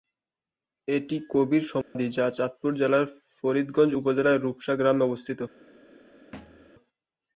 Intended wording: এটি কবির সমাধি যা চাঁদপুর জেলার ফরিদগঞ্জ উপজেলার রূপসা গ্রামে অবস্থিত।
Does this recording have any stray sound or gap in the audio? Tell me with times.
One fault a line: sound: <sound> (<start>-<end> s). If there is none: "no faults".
sound: dropout (1.8-2.0 s)
sound: thud (6.3-6.7 s)